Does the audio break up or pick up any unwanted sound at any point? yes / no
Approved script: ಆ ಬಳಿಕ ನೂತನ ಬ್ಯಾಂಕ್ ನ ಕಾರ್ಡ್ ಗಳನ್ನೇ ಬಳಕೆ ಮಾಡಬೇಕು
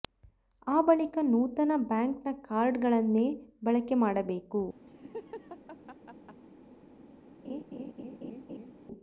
yes